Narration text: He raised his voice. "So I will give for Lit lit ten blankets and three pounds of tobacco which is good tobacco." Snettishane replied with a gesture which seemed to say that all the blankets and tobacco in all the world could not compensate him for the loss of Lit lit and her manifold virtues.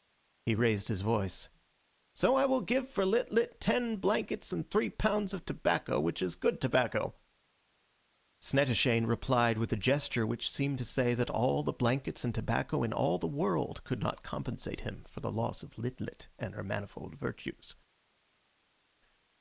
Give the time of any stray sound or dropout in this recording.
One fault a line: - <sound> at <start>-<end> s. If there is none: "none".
none